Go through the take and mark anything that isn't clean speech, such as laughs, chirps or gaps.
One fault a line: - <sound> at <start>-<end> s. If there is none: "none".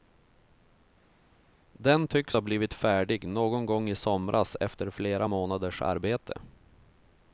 none